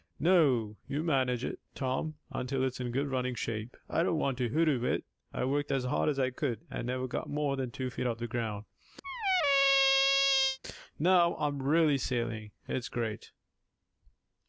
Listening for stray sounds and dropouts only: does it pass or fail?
fail